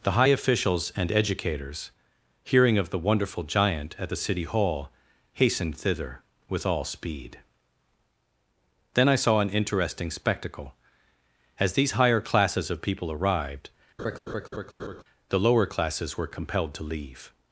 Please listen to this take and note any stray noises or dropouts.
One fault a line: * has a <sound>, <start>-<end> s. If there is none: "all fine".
* has a laugh, 14.0-15.0 s